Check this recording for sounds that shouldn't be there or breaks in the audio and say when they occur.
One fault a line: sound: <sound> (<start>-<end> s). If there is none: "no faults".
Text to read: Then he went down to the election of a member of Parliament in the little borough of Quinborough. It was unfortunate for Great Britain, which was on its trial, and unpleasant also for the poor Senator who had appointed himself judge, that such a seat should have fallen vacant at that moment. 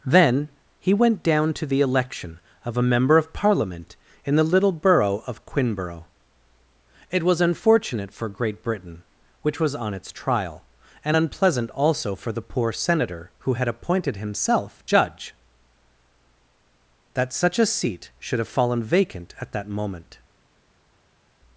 no faults